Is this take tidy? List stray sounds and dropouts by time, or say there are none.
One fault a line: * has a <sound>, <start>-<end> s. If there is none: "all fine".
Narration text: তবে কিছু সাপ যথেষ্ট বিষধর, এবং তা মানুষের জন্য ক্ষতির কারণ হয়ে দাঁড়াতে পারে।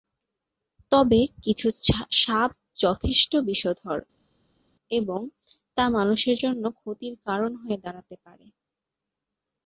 all fine